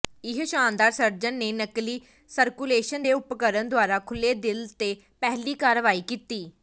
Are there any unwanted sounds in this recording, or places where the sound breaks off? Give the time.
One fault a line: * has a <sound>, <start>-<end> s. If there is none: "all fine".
all fine